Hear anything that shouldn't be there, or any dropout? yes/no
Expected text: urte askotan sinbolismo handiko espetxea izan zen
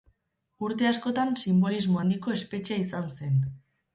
no